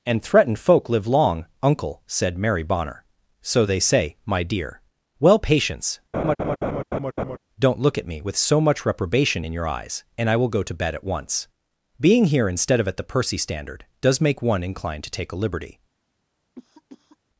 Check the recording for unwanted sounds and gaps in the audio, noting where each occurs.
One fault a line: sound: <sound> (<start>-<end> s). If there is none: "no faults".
sound: laugh (6.1-7.4 s)
sound: cough (16.6-17.2 s)